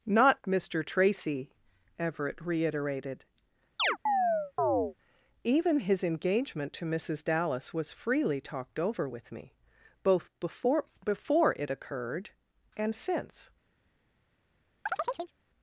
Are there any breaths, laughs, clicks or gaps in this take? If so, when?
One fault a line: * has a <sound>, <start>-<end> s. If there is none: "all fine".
* has a chirp, 3.8-4.9 s
* has a chirp, 14.9-15.3 s